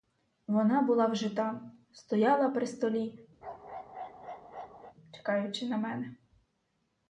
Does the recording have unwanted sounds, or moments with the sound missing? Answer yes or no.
yes